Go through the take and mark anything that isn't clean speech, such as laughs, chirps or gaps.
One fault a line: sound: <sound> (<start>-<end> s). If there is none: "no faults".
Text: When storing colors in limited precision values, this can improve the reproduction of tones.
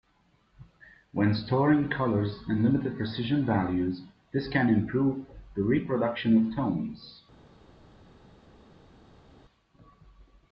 no faults